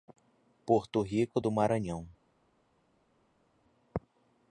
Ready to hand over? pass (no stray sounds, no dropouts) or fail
pass